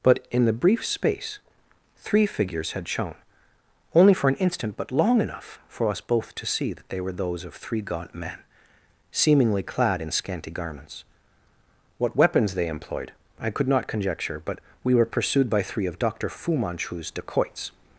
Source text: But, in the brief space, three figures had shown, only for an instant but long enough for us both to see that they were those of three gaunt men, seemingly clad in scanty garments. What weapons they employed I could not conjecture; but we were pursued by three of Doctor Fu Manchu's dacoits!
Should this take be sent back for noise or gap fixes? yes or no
no